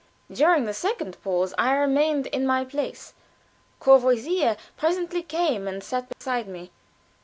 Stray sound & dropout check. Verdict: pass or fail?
fail